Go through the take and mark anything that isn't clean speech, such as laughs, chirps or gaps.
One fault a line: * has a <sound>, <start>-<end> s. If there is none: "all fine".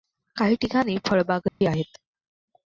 * has a dropout, 1.5-1.6 s